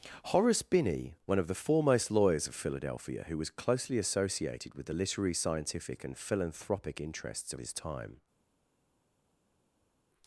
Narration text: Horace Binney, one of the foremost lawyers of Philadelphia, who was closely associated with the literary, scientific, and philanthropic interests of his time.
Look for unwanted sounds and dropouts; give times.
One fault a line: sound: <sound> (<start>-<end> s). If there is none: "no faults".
no faults